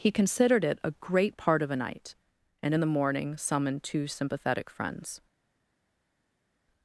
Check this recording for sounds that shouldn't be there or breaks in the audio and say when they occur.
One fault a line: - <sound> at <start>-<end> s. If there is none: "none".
none